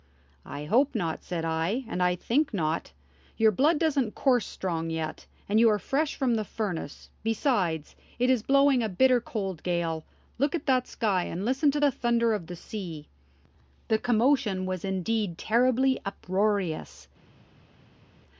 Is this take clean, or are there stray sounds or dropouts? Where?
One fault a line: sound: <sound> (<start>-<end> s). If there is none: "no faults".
no faults